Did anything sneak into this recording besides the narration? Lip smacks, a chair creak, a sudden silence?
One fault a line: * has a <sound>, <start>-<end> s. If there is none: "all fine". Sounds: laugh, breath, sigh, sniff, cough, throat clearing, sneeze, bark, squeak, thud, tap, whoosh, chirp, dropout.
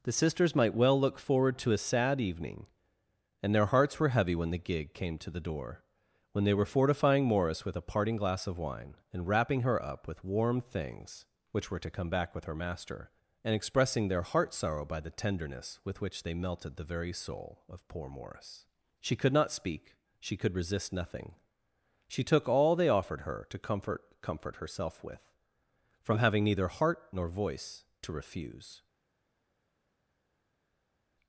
all fine